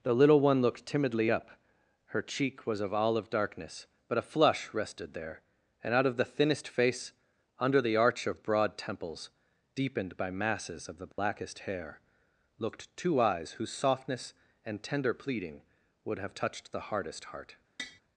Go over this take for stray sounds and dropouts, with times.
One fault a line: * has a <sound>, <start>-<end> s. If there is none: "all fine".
* has a dropout, 11.1-11.2 s
* has a tap, 17.8-18.0 s